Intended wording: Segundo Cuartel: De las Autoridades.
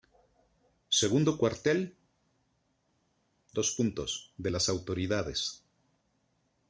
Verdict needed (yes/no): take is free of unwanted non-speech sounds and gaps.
yes